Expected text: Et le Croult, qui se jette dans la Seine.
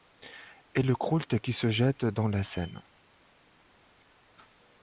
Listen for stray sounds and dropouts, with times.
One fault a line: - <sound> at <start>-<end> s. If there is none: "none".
none